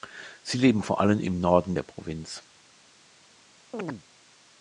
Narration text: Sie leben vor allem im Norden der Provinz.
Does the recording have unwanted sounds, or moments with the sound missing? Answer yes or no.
yes